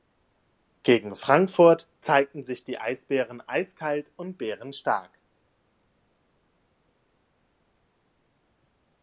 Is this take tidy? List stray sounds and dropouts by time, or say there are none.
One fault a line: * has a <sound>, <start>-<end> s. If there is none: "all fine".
all fine